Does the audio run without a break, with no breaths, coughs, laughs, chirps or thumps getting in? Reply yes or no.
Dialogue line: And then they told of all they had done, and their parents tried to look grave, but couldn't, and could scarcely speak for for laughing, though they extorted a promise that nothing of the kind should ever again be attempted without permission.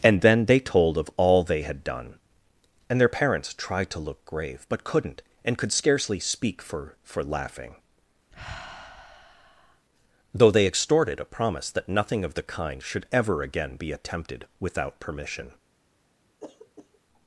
no